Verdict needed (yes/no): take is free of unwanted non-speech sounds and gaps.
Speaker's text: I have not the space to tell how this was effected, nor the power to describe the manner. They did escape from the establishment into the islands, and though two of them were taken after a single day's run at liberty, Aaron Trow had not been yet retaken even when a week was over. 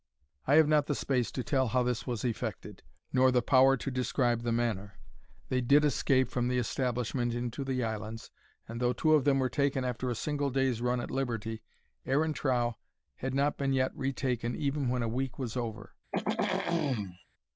no